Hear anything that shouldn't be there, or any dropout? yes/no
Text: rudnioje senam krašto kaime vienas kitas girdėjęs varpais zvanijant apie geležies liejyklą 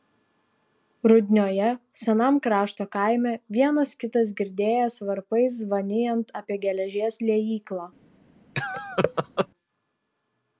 yes